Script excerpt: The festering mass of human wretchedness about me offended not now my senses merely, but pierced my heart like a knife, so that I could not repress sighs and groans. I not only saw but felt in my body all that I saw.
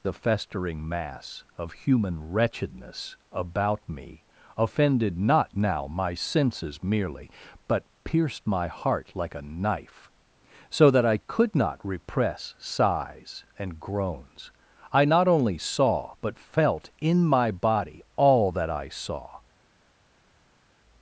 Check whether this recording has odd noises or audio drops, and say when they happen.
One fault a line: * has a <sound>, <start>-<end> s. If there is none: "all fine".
all fine